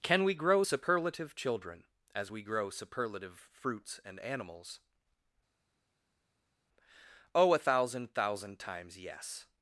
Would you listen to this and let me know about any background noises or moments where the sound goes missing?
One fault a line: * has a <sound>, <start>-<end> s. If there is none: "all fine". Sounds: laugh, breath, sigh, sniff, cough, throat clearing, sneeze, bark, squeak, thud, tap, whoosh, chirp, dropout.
all fine